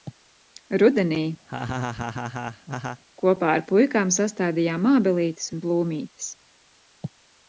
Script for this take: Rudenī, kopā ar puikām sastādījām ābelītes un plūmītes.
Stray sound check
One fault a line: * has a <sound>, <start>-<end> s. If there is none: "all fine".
* has a laugh, 1.5-3.0 s